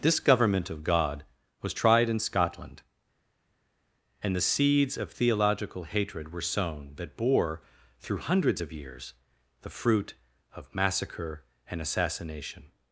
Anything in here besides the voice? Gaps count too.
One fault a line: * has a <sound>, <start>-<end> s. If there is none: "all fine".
all fine